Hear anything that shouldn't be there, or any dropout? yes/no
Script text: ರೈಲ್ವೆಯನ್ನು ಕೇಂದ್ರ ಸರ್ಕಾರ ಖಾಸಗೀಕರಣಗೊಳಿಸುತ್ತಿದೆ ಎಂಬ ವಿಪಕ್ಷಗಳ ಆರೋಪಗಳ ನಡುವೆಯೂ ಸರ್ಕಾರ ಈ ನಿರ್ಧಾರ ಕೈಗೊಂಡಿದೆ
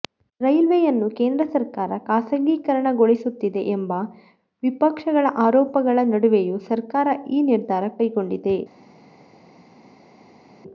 no